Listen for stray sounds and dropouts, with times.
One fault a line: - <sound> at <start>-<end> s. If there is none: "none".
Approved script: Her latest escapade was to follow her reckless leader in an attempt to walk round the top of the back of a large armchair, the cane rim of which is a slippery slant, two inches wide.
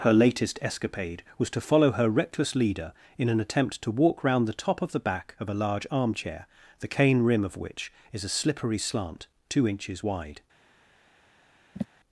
- sigh at 11.7-11.9 s